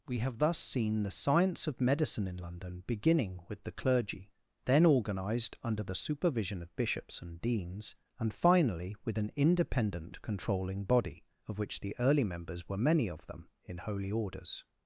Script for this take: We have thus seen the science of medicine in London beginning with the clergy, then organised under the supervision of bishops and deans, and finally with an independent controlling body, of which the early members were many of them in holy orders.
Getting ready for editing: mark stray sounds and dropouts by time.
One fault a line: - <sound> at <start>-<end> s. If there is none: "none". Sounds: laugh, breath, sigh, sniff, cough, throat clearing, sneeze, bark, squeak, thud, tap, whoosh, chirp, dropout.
none